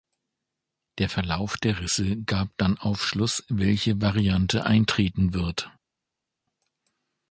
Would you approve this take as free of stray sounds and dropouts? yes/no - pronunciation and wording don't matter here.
yes